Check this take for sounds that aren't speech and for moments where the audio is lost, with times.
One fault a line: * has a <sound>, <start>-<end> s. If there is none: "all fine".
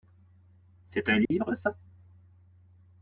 * has a dropout, 1.3-1.3 s